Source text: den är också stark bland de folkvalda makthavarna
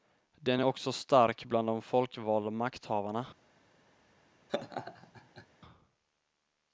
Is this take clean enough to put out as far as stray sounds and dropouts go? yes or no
no